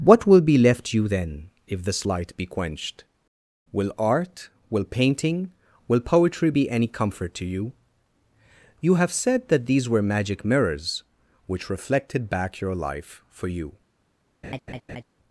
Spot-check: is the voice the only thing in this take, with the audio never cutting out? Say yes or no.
no